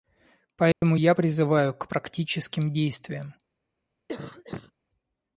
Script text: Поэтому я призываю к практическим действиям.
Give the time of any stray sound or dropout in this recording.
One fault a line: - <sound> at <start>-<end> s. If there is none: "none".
- dropout at 0.7-0.8 s
- cough at 4.1-4.7 s